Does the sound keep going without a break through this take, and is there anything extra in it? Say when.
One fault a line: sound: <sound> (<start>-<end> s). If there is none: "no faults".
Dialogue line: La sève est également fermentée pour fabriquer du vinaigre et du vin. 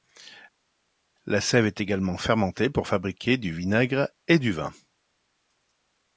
no faults